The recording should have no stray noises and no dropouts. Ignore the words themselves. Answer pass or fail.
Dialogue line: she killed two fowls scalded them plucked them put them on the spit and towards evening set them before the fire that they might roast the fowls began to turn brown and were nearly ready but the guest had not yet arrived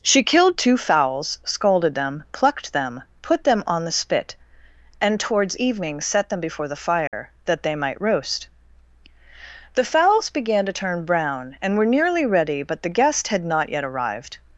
fail